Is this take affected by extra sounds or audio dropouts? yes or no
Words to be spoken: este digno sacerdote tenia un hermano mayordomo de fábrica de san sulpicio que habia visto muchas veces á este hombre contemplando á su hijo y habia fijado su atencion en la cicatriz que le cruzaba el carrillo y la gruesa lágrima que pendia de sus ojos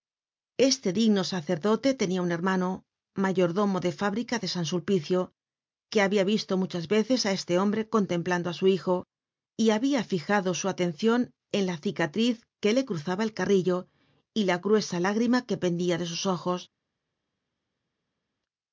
no